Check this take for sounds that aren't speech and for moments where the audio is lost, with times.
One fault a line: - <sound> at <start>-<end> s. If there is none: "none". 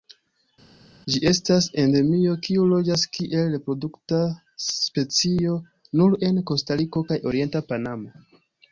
none